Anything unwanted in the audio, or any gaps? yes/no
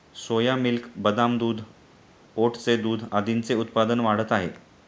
no